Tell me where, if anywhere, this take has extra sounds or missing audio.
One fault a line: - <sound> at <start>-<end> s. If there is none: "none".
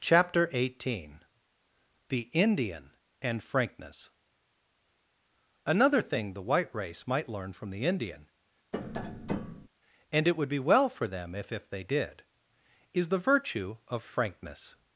- tap at 8.7-9.7 s